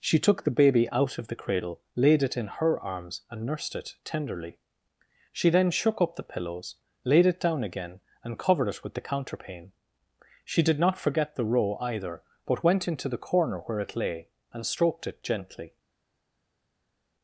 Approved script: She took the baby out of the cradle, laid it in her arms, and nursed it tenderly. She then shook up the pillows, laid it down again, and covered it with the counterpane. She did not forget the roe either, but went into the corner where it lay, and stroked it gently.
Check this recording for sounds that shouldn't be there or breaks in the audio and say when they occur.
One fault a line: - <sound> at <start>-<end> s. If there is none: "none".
none